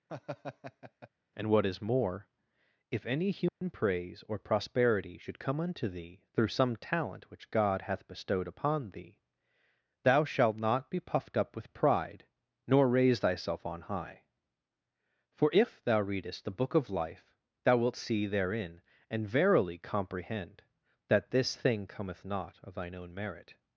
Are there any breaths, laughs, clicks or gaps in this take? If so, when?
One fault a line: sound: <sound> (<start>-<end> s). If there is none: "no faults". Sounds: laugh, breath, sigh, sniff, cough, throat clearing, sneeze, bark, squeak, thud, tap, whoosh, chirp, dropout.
sound: laugh (0.1-1.1 s)
sound: dropout (3.5-3.6 s)